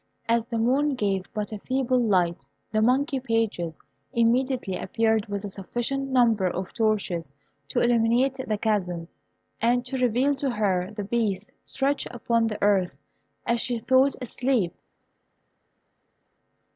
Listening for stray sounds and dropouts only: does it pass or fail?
pass